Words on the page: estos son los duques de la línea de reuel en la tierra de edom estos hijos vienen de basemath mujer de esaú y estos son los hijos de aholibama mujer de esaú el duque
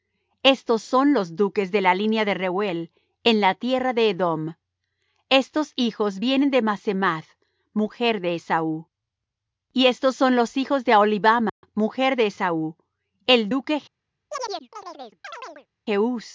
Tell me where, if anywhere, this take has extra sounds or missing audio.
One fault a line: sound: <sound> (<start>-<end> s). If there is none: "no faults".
sound: dropout (11.5-11.6 s)
sound: chirp (14.3-15.7 s)